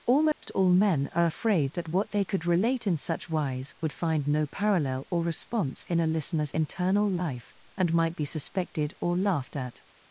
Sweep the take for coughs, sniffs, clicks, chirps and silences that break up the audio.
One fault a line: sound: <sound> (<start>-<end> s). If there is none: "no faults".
sound: dropout (0.3-0.4 s)